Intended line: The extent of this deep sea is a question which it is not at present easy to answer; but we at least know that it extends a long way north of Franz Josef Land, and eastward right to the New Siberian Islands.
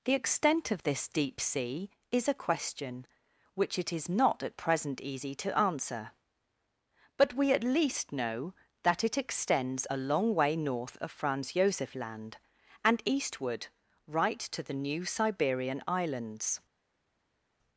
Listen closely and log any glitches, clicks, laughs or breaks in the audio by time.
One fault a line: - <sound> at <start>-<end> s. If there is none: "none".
none